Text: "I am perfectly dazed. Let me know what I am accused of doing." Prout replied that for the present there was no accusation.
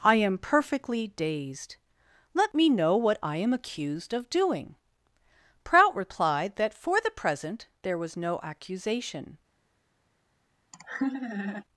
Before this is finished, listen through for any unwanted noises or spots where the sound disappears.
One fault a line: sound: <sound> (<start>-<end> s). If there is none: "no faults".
sound: laugh (10.7-11.6 s)